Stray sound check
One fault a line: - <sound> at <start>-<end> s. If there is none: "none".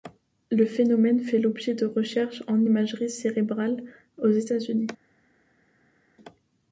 none